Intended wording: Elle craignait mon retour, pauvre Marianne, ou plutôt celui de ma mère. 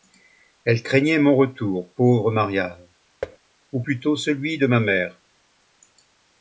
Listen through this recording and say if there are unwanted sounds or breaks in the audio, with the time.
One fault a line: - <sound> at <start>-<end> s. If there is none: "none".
- thud at 3.2-3.4 s